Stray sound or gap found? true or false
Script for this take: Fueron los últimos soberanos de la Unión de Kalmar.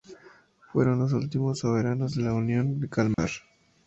true